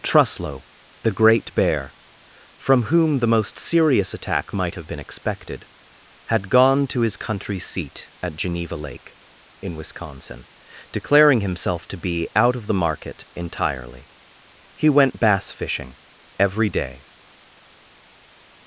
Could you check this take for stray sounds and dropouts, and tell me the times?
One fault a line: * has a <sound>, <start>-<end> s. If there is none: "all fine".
all fine